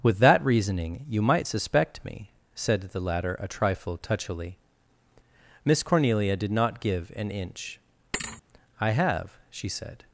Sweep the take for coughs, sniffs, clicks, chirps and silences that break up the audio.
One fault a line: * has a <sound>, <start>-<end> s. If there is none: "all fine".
* has a thud, 8.1-8.4 s